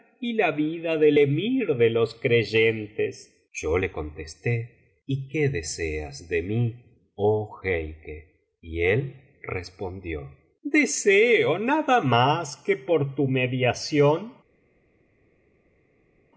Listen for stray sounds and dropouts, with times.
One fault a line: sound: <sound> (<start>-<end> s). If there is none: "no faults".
no faults